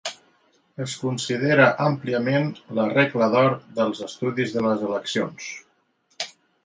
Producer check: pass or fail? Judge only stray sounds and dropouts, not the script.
pass